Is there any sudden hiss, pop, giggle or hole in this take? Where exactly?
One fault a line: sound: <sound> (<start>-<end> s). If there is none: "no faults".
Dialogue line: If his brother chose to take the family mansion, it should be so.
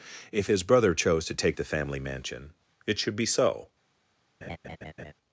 sound: laugh (4.4-5.1 s)